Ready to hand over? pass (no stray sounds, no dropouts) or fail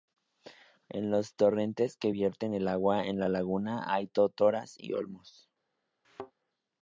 fail